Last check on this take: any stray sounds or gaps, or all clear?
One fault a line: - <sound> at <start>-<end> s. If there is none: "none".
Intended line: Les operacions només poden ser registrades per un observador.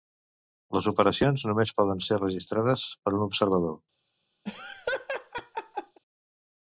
- laugh at 4.5-6.0 s